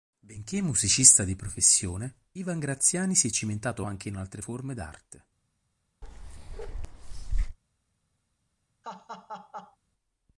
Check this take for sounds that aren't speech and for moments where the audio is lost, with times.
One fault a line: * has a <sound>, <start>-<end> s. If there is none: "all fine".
* has a bark, 6.0-7.6 s
* has a laugh, 8.8-9.8 s